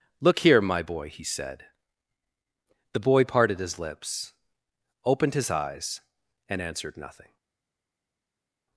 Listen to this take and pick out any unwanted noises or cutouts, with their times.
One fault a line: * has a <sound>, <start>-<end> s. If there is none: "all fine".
all fine